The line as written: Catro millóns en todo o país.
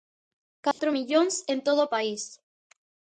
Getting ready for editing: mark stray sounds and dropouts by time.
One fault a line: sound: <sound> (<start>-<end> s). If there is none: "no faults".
sound: dropout (0.7-0.8 s)